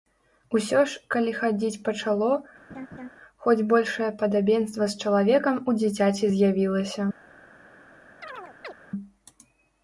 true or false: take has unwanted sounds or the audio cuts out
true